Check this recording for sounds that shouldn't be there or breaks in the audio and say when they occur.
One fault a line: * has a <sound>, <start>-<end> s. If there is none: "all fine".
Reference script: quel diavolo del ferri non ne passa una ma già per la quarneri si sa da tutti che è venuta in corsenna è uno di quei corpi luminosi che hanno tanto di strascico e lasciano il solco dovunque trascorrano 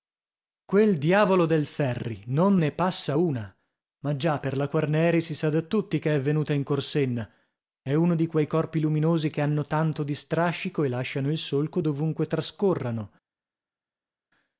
all fine